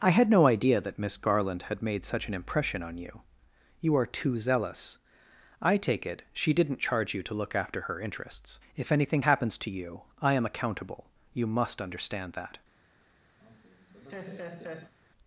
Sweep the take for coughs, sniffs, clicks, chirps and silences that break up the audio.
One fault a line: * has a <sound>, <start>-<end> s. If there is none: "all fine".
* has a laugh, 13.4-14.9 s